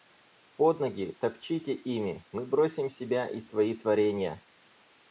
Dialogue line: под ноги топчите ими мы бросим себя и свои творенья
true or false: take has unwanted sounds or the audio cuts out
false